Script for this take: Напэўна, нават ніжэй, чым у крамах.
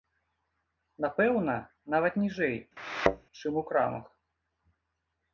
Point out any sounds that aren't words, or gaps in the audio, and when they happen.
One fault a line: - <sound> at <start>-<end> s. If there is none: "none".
- thud at 2.8-3.3 s